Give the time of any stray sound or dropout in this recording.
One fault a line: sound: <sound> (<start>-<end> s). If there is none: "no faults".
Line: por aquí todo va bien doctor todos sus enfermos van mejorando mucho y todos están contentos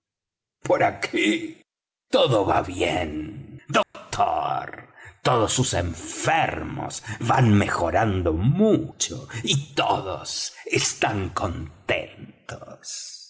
sound: dropout (3.8-3.9 s)